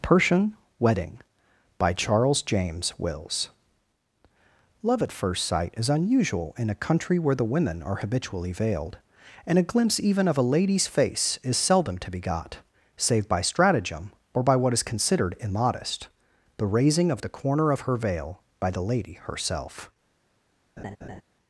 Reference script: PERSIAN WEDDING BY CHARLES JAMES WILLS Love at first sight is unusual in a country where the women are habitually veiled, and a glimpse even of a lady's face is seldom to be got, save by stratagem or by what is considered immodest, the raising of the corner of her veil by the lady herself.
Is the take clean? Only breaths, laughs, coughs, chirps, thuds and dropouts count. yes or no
no